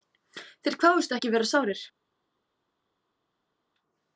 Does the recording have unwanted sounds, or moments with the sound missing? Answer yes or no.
no